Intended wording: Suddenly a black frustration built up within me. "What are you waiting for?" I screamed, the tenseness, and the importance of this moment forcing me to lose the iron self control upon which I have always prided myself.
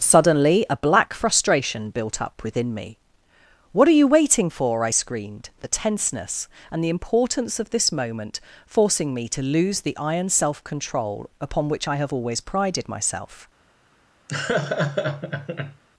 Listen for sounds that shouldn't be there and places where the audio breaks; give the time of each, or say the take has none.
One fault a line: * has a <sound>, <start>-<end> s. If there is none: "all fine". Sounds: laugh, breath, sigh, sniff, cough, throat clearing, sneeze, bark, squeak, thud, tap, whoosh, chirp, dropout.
* has a laugh, 14.3-15.8 s